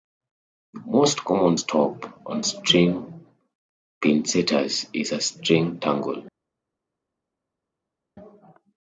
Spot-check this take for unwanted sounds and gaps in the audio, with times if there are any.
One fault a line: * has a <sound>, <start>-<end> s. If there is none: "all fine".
all fine